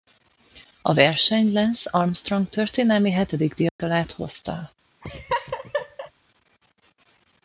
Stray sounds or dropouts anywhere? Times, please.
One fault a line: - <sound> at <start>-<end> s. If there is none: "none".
- dropout at 3.7-3.8 s
- laugh at 5.0-6.1 s